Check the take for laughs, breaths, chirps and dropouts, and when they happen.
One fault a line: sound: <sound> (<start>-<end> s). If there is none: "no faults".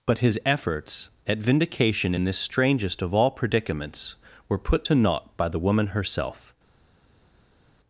no faults